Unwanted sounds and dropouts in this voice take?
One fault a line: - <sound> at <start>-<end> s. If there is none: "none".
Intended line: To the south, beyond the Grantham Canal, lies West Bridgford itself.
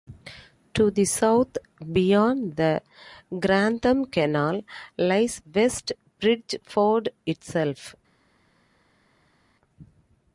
none